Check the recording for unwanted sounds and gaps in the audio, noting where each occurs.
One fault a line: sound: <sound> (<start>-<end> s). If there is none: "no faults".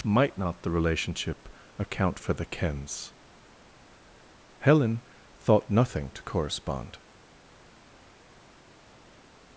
no faults